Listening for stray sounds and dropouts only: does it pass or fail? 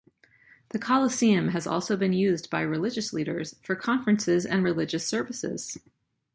pass